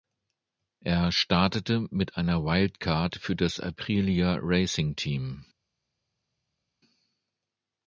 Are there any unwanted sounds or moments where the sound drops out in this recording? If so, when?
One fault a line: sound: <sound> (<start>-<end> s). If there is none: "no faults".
no faults